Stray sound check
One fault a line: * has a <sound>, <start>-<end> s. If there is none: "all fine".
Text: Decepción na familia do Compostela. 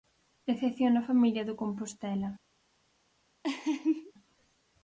* has a laugh, 3.4-4.1 s